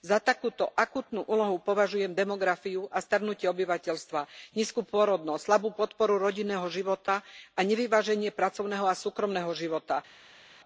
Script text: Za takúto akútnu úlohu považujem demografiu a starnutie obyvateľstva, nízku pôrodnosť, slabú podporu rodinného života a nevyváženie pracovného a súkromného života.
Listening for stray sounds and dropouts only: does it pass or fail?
pass